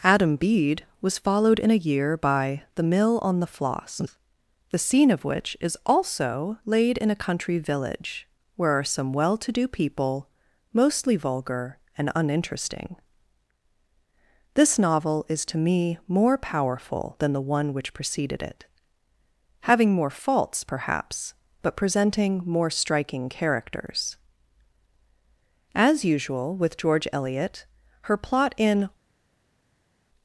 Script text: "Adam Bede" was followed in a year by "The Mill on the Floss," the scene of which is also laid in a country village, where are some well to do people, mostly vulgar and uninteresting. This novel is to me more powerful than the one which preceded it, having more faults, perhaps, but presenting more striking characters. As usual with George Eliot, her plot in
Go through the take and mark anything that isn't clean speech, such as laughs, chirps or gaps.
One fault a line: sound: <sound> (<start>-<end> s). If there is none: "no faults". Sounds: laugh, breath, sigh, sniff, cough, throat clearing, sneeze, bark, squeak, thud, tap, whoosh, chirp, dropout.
no faults